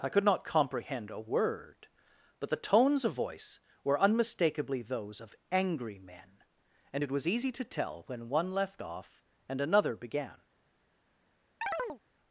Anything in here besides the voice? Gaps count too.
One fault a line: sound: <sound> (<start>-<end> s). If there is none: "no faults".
sound: chirp (11.6-12.0 s)